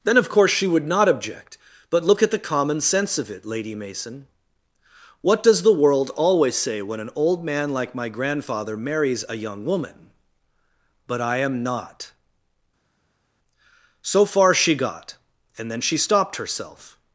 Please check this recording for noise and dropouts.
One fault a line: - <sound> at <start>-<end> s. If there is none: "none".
none